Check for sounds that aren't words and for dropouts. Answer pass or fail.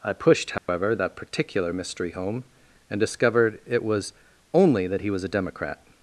fail